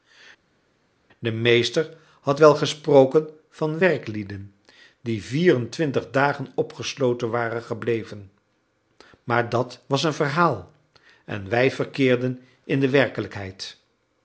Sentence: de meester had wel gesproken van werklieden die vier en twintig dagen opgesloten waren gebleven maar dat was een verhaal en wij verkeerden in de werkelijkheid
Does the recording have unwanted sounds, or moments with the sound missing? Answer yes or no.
no